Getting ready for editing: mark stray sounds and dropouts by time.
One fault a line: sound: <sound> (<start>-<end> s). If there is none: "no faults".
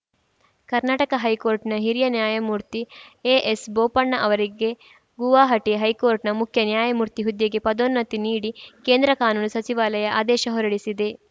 no faults